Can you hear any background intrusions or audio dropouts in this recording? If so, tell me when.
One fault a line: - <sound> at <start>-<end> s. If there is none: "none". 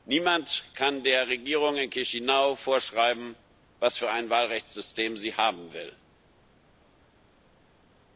none